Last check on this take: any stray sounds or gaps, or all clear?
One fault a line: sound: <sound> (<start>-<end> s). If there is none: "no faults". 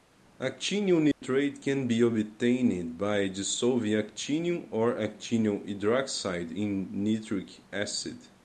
sound: dropout (1.1-1.2 s)